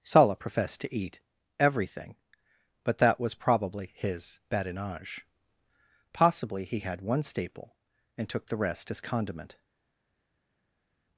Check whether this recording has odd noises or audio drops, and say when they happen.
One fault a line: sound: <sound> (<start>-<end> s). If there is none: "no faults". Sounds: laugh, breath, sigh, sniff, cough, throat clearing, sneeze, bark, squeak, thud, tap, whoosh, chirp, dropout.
no faults